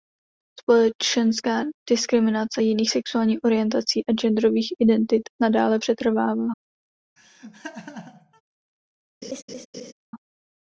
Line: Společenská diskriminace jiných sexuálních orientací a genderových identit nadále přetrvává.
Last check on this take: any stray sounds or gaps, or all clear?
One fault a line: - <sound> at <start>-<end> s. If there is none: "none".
- laugh at 7.2-8.4 s
- laugh at 9.2-9.9 s